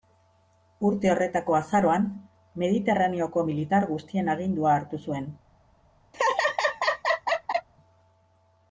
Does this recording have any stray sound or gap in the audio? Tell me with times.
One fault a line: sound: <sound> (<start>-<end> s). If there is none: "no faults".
sound: laugh (6.1-7.7 s)